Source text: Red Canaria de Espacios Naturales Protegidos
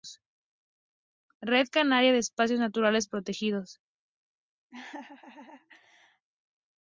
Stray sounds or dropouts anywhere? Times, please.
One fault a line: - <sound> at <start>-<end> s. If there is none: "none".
- laugh at 4.7-6.3 s